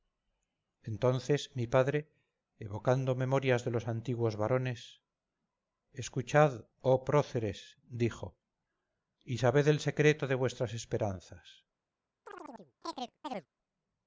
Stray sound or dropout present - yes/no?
yes